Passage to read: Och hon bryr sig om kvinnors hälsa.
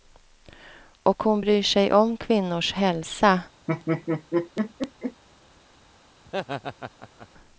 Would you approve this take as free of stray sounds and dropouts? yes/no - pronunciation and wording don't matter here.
no